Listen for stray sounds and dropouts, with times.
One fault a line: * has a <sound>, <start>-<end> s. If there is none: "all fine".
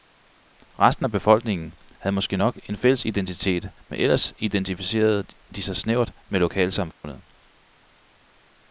* has a dropout, 6.9-7.0 s